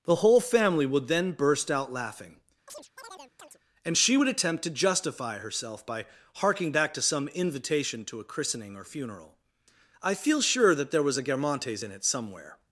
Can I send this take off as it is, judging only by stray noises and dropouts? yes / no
no